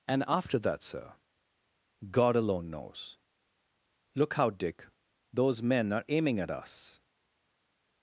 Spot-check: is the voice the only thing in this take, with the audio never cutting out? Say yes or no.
yes